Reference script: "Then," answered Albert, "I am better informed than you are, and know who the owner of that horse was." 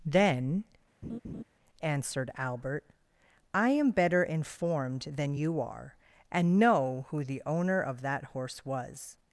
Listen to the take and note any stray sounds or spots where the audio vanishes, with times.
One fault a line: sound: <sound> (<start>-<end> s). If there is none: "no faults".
sound: laugh (1.0-1.4 s)